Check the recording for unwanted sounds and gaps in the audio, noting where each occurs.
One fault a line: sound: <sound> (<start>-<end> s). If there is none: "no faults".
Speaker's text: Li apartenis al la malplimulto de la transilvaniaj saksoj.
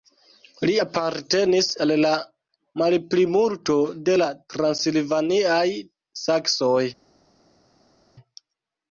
no faults